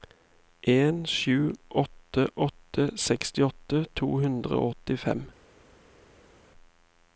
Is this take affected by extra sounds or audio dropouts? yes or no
no